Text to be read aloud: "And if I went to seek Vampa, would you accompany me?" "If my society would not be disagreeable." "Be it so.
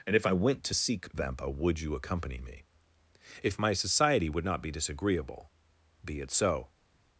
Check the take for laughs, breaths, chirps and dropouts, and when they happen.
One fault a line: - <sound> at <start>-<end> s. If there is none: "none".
none